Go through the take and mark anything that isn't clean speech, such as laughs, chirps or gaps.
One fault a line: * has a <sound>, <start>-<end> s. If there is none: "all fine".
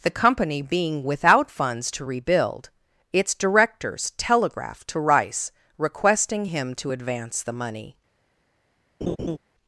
* has a laugh, 9.0-9.4 s